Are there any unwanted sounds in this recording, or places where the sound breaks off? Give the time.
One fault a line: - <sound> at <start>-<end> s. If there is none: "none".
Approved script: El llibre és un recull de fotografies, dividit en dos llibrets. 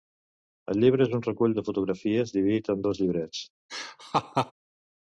- laugh at 3.7-4.5 s